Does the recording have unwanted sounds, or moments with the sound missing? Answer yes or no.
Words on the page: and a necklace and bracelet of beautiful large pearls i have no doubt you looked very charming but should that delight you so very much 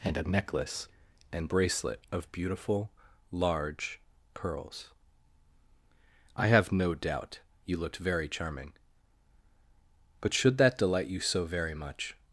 no